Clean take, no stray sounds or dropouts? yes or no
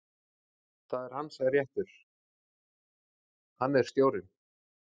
yes